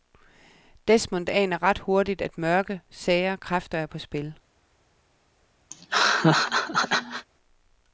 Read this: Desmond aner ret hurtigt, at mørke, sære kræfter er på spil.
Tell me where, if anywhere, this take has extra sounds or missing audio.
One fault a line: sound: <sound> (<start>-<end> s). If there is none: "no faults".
sound: laugh (5.7-7.3 s)